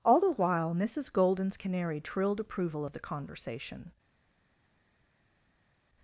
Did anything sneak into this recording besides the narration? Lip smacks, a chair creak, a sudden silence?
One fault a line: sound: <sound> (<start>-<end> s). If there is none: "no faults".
no faults